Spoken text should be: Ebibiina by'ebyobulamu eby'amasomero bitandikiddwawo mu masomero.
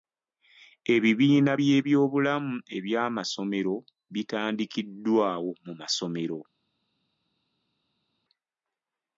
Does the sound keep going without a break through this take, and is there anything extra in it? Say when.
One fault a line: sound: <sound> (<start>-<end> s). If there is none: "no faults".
no faults